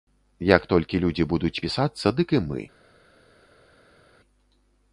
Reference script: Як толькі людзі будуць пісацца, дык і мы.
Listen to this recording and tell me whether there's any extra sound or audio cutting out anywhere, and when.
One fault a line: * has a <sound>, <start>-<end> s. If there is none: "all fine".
all fine